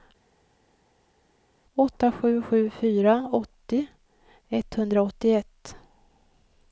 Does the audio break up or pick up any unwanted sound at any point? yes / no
no